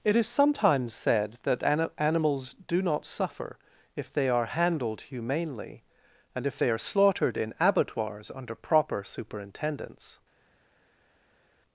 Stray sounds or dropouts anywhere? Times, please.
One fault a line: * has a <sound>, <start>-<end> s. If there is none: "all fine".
all fine